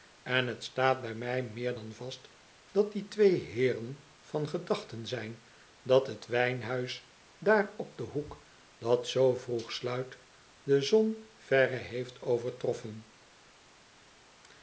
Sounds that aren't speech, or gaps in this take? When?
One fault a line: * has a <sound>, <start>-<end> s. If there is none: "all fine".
all fine